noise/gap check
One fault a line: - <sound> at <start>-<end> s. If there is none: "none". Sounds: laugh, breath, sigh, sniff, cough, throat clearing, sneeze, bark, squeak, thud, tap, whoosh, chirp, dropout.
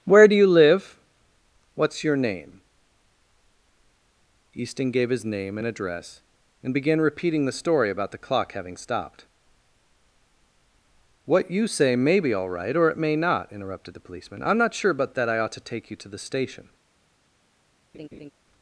- laugh at 17.9-18.3 s